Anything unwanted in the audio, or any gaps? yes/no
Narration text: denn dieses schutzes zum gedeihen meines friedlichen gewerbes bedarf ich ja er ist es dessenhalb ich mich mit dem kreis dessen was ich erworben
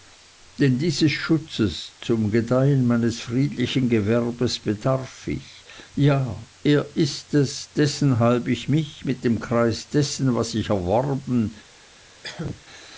yes